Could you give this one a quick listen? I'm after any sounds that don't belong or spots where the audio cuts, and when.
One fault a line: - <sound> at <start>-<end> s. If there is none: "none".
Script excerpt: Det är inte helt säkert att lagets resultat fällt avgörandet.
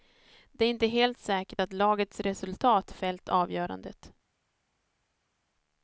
none